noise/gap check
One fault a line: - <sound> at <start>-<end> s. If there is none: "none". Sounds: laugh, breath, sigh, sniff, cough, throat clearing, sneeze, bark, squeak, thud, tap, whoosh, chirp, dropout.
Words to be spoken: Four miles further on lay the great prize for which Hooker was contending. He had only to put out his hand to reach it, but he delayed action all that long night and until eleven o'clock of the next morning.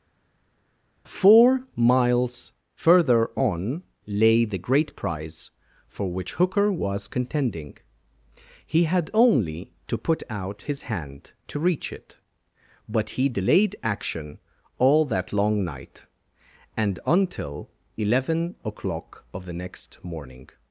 none